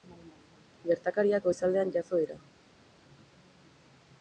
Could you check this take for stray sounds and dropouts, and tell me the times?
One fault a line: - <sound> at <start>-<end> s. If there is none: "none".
none